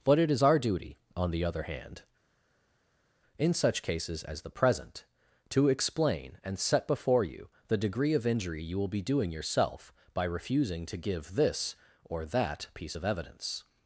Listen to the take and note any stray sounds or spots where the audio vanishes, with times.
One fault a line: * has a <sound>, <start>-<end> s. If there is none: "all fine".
all fine